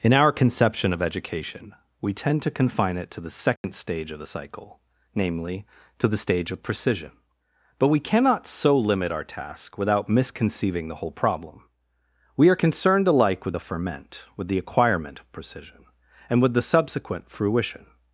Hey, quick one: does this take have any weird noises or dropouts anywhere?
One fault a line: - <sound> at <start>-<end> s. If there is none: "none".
- dropout at 3.6-3.6 s